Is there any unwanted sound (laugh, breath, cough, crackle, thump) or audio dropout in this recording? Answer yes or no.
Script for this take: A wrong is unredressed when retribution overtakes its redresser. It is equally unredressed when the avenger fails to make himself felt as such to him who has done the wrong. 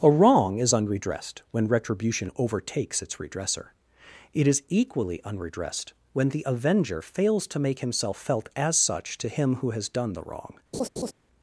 yes